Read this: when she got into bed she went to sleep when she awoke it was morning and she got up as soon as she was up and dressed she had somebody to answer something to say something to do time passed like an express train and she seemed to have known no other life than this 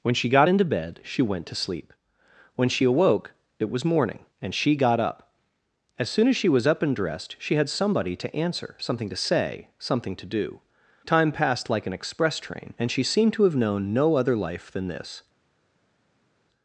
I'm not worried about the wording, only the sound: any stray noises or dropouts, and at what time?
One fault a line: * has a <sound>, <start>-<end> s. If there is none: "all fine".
all fine